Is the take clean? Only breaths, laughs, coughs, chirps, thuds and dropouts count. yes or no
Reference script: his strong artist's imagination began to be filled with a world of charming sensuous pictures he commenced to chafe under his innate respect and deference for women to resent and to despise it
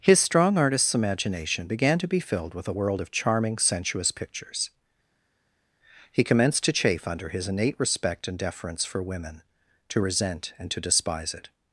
yes